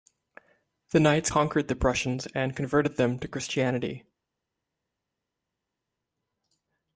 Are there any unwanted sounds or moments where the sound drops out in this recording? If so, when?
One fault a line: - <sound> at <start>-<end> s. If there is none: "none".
none